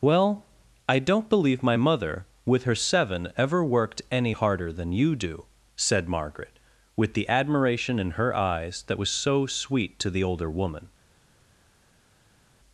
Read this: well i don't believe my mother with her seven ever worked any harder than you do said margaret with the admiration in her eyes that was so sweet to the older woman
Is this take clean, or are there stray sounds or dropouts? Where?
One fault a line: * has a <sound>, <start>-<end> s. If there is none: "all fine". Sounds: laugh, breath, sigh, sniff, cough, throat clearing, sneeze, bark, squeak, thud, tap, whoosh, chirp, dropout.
all fine